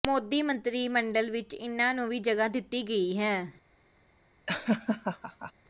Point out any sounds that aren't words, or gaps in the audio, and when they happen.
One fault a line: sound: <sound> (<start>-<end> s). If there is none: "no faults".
sound: laugh (4.5-5.5 s)